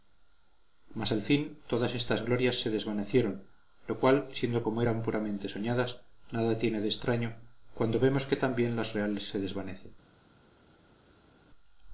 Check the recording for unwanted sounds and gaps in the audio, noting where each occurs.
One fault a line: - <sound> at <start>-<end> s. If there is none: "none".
none